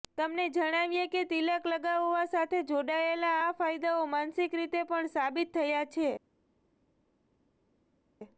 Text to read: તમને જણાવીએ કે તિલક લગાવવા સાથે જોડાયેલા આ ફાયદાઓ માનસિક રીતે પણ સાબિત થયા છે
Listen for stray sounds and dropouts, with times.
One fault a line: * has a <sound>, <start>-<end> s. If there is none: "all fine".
all fine